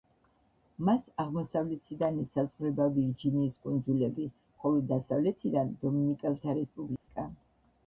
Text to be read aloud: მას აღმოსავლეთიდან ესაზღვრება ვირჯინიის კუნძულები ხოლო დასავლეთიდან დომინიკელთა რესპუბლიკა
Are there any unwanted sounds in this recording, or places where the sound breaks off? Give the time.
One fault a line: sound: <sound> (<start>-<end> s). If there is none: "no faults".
sound: dropout (7.0-7.1 s)